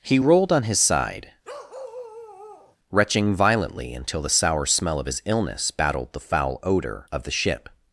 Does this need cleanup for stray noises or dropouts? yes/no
yes